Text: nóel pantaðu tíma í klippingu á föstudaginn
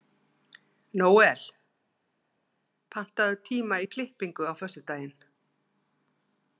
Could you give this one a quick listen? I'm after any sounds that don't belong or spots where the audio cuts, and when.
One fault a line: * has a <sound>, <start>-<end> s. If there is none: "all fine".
all fine